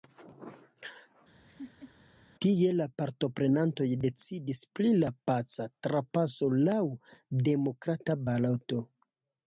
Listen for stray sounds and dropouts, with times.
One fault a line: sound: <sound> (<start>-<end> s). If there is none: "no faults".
sound: laugh (1.5-1.9 s)